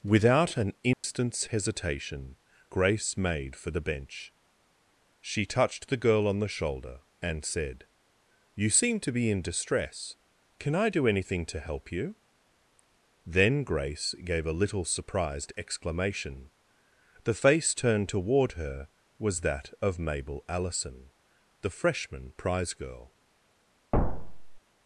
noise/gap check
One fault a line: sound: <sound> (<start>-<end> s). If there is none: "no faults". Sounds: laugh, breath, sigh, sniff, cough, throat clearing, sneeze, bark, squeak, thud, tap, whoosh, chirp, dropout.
sound: dropout (0.9-1.0 s)
sound: thud (23.9-24.6 s)